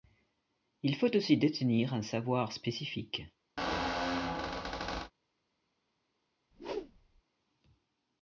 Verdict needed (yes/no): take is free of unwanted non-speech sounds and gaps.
no